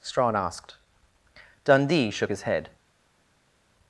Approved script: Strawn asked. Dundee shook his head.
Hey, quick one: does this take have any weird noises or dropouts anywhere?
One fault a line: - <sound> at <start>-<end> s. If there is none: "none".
none